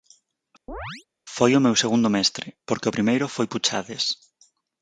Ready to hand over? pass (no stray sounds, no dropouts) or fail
fail